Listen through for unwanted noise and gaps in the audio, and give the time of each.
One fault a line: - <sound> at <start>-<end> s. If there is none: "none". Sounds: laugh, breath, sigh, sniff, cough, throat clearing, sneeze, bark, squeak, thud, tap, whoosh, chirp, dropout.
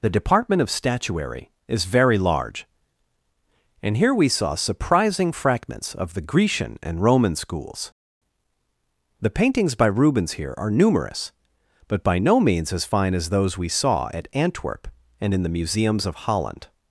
none